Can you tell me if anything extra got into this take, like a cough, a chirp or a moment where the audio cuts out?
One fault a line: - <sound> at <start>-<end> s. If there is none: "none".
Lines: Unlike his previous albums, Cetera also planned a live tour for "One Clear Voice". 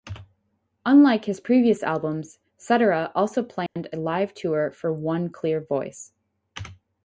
- dropout at 3.7-3.8 s